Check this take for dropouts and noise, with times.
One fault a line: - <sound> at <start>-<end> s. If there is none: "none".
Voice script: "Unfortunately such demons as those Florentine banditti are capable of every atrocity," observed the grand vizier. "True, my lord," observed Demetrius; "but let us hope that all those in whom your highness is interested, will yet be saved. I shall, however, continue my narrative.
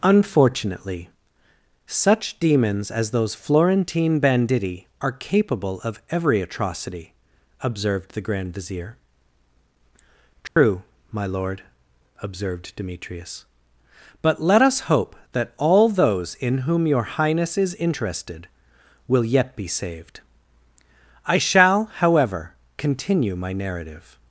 - dropout at 10.5-10.6 s